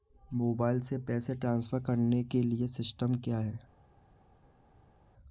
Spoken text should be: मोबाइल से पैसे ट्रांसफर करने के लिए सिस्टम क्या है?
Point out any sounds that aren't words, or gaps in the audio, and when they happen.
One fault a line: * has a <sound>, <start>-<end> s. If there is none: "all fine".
all fine